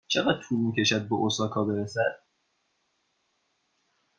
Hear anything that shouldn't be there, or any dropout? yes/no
no